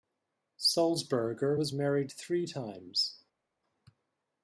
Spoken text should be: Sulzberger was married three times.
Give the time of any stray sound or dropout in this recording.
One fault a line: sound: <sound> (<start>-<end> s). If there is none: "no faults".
no faults